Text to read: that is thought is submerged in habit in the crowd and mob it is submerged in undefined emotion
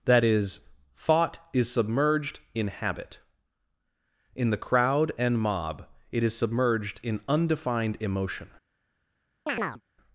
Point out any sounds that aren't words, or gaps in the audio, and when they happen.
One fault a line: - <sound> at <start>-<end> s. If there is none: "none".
- chirp at 9.5-9.8 s